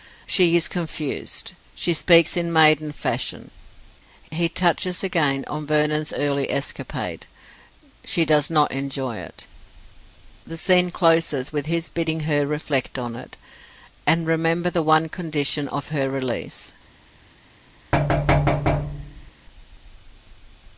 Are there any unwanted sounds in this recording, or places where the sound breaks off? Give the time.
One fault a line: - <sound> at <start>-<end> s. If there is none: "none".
- thud at 17.9-19.3 s